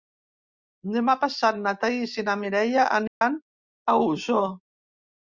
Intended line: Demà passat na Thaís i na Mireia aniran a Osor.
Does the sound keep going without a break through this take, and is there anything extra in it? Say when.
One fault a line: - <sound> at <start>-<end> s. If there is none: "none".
- dropout at 3.1-3.2 s